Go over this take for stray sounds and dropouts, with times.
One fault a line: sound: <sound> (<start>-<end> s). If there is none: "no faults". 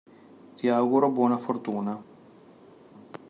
no faults